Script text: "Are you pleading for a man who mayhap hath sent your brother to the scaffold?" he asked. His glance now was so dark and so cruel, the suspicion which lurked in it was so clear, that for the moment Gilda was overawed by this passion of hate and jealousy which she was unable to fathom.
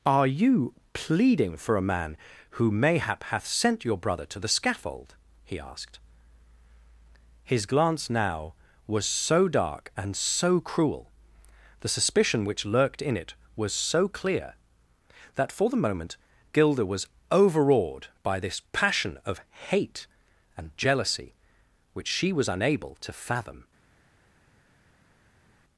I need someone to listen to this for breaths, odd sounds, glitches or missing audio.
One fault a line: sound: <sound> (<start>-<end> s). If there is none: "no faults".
no faults